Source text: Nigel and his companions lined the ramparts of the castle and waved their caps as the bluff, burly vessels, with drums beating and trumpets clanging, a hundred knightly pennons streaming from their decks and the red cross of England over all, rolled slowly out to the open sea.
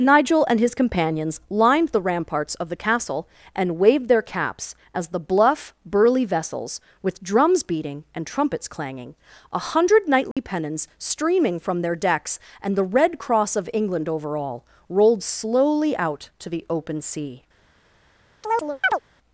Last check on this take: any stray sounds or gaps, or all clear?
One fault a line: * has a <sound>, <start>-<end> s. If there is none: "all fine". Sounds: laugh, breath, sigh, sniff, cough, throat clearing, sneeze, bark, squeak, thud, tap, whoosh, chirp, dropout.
* has a dropout, 10.3-10.4 s
* has a chirp, 18.4-19.0 s